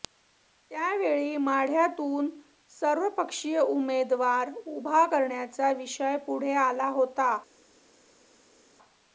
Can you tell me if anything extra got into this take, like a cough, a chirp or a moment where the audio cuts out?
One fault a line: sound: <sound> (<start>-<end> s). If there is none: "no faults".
no faults